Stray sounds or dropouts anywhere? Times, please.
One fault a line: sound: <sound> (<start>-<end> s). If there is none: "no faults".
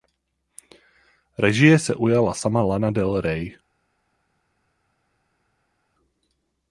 no faults